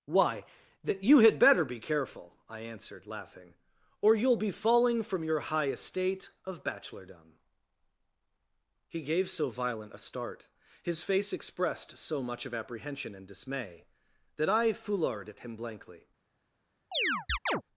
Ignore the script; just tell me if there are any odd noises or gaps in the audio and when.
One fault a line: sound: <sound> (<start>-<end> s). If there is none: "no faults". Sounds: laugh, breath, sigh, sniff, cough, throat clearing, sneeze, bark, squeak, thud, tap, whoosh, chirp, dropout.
sound: chirp (16.9-17.6 s)